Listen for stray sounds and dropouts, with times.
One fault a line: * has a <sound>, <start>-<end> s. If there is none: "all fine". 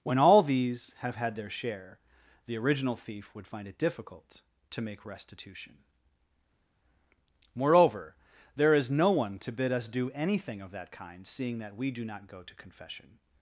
all fine